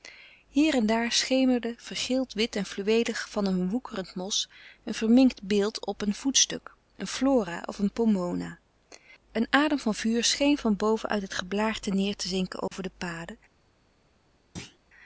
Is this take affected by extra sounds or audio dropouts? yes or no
yes